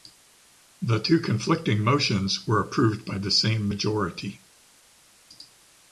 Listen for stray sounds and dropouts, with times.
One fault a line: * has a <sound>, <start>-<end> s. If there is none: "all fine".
all fine